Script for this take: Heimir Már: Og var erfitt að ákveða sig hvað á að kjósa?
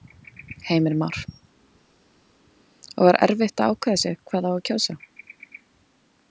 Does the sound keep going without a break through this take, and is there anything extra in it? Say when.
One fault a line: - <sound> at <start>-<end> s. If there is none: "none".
none